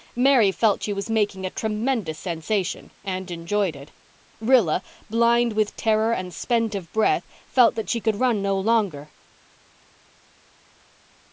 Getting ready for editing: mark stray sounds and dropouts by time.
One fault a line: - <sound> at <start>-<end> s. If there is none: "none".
none